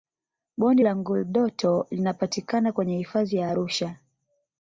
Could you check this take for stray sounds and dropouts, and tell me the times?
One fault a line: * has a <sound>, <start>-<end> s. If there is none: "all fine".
all fine